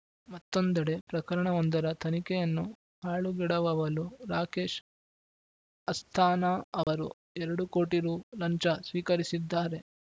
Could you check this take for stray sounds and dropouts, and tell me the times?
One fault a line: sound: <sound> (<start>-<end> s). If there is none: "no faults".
sound: dropout (6.8-6.9 s)